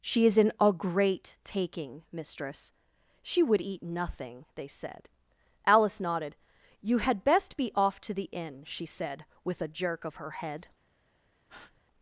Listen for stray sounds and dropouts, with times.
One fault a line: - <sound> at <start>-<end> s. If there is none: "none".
- breath at 11.5-11.8 s